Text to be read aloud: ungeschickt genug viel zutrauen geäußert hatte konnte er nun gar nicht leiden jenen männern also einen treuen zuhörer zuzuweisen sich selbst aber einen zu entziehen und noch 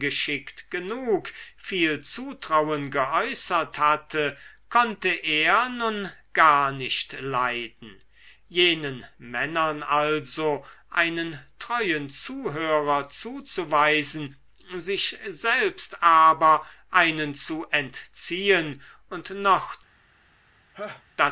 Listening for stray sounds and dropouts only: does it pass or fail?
fail